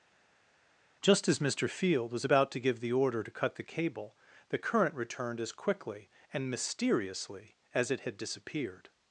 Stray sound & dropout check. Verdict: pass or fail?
pass